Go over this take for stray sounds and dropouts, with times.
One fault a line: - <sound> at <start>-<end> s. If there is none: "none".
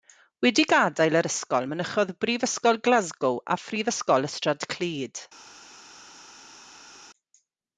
none